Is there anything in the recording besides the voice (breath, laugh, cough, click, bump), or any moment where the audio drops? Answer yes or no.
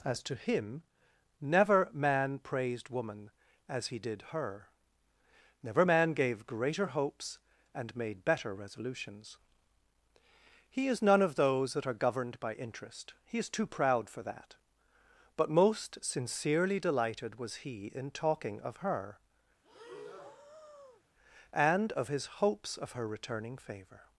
yes